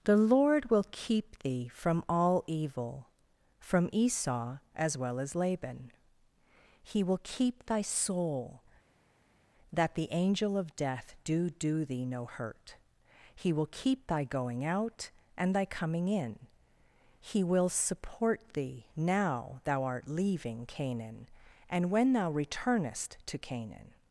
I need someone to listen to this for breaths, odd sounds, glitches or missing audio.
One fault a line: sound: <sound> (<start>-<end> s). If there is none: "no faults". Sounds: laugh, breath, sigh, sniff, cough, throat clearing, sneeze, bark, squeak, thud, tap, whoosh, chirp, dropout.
no faults